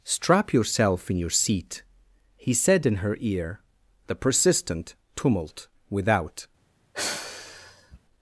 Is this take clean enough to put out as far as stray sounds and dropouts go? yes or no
no